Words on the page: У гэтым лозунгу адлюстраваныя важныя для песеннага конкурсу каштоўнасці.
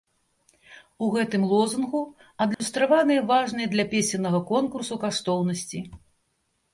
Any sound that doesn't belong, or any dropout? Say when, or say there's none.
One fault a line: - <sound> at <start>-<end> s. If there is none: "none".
- dropout at 2.5-2.6 s